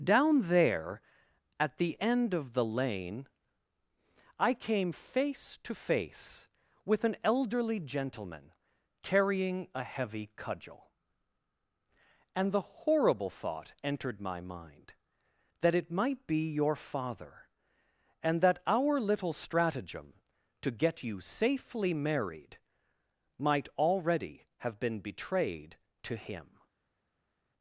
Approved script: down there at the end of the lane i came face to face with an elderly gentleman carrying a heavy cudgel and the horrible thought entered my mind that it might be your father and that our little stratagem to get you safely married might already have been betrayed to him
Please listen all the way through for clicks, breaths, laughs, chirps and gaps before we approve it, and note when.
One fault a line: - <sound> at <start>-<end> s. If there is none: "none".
none